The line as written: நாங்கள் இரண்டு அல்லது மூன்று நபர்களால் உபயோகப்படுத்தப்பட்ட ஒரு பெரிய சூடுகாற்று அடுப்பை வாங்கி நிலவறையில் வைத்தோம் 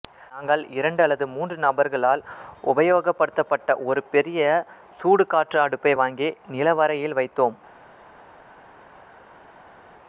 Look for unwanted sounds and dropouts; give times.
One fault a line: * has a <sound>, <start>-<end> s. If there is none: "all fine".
all fine